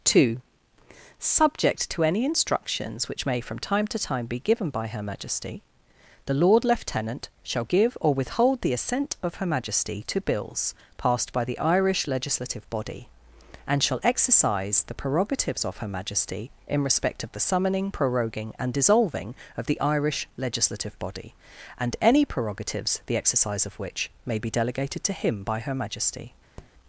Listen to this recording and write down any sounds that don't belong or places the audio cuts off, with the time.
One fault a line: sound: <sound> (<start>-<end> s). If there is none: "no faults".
sound: tap (26.6-26.7 s)